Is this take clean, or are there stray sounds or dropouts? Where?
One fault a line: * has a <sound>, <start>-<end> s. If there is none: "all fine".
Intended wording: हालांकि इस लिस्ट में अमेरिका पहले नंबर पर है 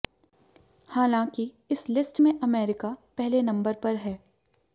all fine